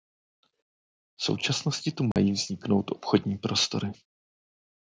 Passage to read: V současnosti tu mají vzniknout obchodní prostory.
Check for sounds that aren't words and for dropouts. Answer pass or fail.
fail